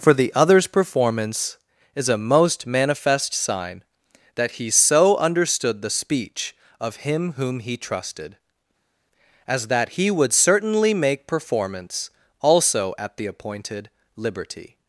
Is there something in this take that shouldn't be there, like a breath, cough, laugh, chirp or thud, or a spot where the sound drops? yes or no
no